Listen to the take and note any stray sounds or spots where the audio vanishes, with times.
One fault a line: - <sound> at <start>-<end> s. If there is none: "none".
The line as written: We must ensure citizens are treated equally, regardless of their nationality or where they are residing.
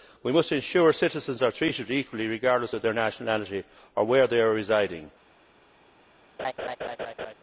- laugh at 6.4-7.3 s